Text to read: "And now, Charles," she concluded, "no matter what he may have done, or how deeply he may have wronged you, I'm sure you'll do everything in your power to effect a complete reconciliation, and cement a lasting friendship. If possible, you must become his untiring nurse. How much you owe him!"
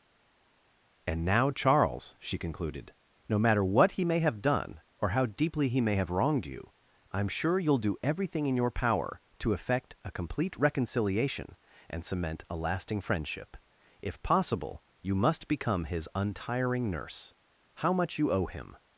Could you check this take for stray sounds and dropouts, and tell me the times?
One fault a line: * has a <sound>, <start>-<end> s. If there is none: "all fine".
all fine